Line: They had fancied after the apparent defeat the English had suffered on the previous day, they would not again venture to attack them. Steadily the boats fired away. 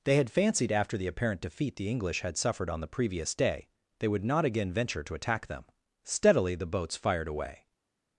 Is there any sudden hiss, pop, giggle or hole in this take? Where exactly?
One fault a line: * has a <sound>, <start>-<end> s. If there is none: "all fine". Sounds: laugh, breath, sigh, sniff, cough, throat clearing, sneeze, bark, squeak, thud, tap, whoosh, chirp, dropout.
all fine